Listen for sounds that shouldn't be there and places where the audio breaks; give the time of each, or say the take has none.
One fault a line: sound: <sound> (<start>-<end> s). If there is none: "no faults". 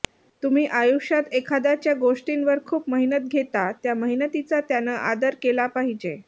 no faults